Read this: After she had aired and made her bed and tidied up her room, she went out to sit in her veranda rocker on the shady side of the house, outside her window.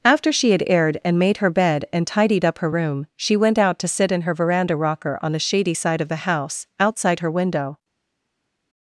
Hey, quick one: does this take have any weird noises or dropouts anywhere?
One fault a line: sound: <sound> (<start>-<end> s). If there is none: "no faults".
no faults